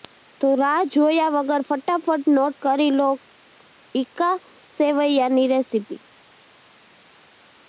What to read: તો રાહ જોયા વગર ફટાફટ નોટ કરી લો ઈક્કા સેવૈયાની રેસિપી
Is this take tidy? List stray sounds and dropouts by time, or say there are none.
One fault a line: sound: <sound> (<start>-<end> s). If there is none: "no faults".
no faults